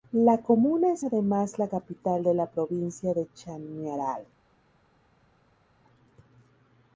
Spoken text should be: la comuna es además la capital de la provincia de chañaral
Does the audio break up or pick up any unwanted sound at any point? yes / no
no